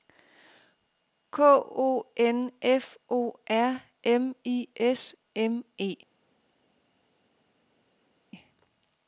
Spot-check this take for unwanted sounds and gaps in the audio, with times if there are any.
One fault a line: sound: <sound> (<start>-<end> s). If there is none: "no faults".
no faults